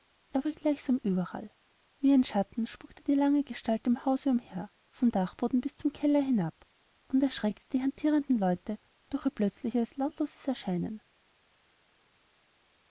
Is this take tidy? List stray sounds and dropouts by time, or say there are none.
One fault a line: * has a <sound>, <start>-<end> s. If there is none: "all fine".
all fine